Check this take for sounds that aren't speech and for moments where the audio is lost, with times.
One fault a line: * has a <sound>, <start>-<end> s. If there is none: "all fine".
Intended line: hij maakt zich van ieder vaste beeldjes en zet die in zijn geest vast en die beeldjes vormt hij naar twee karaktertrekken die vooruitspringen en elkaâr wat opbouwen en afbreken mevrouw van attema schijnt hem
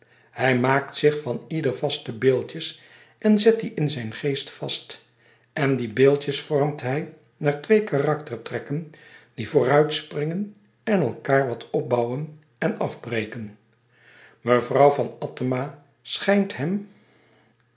all fine